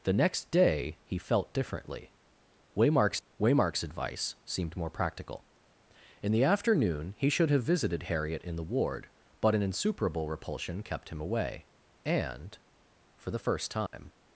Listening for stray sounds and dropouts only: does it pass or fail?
fail